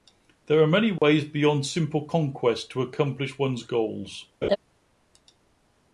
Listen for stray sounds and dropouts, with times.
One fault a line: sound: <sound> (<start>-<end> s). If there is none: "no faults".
sound: dropout (1.0-1.0 s)
sound: laugh (4.4-4.6 s)